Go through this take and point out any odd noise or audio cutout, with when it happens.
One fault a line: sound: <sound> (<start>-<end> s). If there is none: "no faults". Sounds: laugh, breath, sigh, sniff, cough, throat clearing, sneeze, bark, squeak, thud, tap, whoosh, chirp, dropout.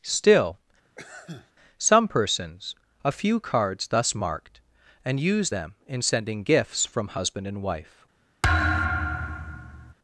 sound: sneeze (0.8-1.5 s)
sound: thud (8.4-9.9 s)